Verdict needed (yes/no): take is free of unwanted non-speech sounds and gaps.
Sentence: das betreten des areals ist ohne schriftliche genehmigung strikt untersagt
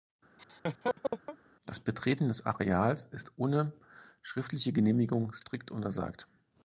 no